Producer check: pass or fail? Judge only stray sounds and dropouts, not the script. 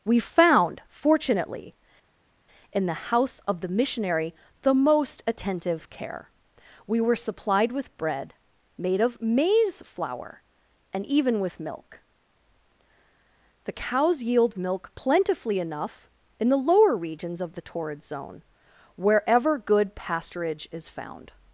pass